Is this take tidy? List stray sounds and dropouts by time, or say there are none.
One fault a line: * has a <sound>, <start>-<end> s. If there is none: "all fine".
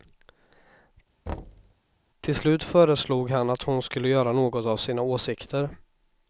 * has a thud, 1.3-1.7 s